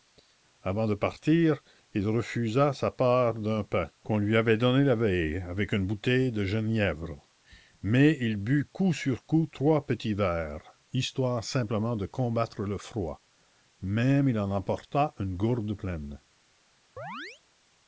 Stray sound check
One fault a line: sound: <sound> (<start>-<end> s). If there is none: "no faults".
sound: chirp (17.0-17.4 s)